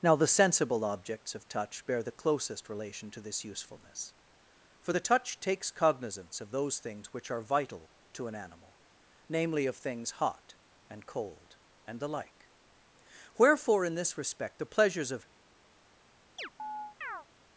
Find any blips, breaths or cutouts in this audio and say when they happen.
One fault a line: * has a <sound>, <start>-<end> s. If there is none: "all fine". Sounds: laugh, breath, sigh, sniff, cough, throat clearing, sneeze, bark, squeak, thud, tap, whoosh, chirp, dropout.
* has a chirp, 16.4-17.3 s